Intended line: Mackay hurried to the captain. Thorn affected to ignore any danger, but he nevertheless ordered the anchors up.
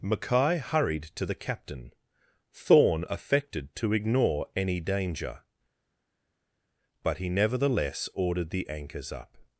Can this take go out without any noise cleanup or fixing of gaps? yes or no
yes